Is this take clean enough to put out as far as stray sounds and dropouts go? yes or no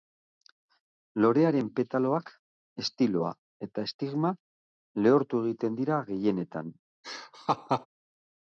no